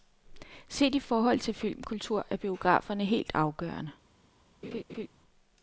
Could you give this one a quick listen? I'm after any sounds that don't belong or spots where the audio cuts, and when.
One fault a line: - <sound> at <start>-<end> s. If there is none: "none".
- laugh at 4.6-5.1 s